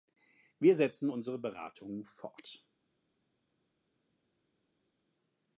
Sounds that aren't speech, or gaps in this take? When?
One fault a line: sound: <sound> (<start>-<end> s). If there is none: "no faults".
no faults